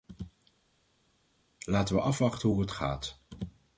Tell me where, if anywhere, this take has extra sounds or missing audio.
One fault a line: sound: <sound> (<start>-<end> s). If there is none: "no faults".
no faults